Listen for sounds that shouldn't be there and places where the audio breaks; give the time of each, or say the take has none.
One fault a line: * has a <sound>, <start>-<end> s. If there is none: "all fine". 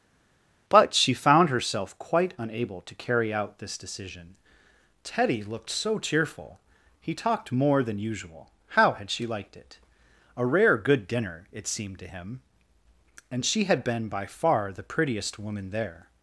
all fine